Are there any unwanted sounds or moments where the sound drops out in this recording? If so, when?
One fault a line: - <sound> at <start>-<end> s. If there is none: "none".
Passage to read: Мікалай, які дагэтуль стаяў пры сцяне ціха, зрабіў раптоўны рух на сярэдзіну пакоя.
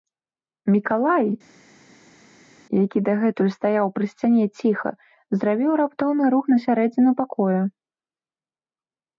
none